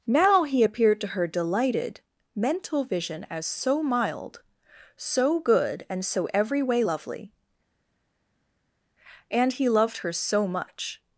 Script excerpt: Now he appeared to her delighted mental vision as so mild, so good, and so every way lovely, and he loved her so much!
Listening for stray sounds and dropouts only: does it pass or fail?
pass